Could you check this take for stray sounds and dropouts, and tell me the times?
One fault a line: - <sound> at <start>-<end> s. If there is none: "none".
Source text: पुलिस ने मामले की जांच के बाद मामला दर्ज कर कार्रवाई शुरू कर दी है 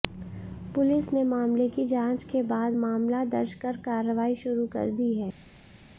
none